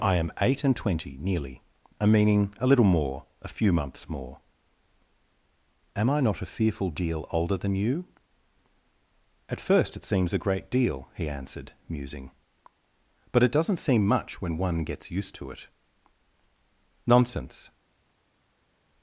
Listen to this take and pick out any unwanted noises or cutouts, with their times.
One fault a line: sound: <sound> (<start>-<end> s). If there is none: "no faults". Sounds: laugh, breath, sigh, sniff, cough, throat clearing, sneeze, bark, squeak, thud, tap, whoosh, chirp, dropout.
no faults